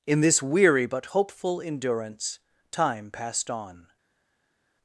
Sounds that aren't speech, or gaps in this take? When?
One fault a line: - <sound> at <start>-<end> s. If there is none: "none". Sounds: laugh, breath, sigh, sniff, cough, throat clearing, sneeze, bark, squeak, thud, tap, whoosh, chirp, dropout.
none